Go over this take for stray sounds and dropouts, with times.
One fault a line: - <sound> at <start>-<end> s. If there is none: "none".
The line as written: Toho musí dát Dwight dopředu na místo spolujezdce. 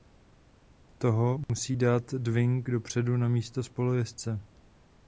- dropout at 1.4-1.5 s